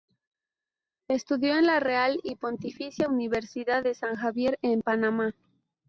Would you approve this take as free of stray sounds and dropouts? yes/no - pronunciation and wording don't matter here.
yes